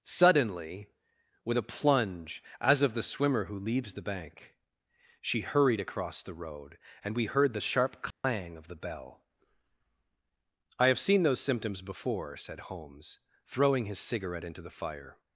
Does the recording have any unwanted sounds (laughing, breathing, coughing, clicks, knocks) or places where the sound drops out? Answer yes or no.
yes